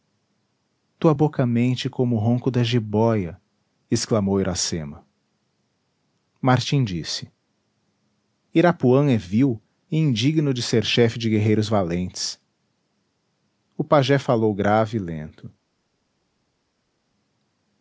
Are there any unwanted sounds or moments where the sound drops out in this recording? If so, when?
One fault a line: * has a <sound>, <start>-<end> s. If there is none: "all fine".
all fine